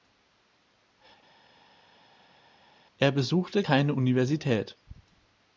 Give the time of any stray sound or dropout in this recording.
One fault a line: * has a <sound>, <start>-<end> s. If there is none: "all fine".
all fine